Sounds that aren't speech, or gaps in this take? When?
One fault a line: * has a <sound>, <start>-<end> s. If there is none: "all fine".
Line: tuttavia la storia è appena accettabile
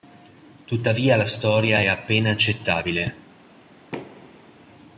* has a thud, 3.9-4.5 s